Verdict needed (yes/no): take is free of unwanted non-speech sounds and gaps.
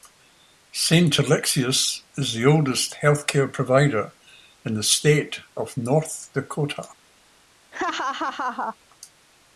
no